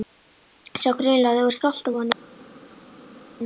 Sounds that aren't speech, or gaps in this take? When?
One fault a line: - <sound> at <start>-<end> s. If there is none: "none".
none